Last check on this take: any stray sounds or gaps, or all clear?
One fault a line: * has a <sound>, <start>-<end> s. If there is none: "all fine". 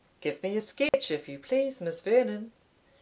* has a dropout, 0.9-0.9 s